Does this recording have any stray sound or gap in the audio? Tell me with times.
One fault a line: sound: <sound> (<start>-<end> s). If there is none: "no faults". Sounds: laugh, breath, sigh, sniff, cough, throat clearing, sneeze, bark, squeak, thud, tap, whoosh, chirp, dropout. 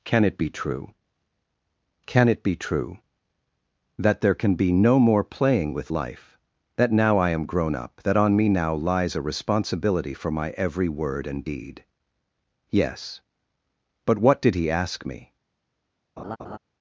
sound: laugh (16.2-16.6 s)